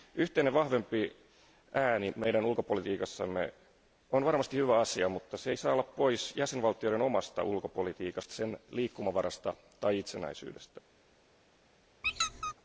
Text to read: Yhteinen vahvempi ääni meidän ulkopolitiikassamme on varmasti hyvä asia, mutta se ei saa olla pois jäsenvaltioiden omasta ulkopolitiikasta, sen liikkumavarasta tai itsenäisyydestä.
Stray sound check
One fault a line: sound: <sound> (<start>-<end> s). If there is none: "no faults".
sound: squeak (12.0-12.5 s)